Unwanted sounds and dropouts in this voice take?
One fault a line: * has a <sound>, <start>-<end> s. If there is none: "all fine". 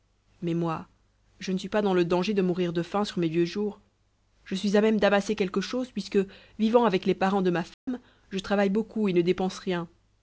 * has a dropout, 7.7-7.9 s